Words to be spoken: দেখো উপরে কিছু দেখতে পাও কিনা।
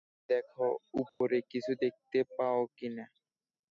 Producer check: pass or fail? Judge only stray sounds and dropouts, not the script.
fail